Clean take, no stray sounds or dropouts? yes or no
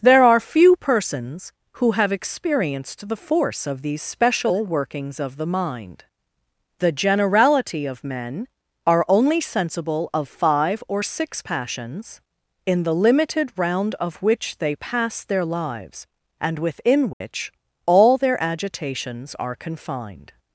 no